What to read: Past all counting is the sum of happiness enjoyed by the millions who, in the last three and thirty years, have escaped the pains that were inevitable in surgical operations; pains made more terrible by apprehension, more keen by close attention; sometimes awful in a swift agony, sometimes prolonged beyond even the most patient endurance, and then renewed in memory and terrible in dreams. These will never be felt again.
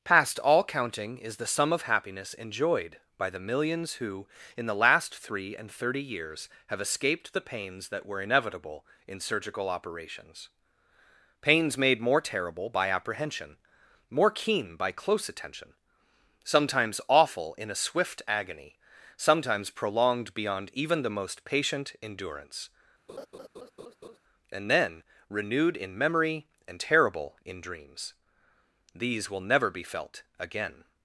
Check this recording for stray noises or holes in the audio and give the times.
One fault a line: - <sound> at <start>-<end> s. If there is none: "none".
- laugh at 23.1-24.2 s